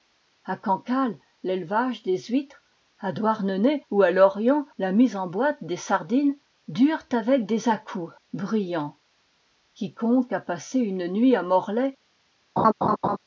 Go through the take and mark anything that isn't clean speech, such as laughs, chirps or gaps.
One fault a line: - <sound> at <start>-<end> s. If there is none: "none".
- laugh at 12.6-13.2 s